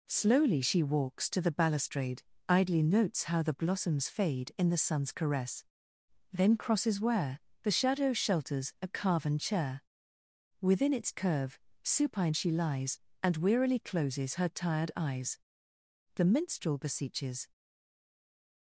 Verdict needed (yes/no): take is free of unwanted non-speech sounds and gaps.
yes